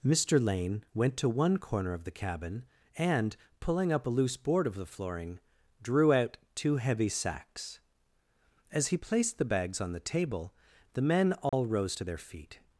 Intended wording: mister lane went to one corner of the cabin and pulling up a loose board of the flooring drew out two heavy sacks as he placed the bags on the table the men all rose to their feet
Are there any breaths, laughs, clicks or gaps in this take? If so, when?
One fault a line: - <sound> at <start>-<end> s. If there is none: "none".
- dropout at 11.5-11.5 s